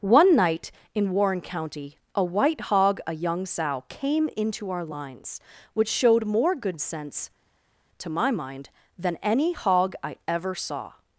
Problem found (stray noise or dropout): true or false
false